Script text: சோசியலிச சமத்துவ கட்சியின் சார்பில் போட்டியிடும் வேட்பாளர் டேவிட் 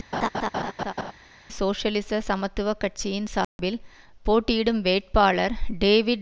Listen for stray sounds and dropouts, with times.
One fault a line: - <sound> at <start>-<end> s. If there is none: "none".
- laugh at 0.1-1.1 s
- dropout at 3.4-3.6 s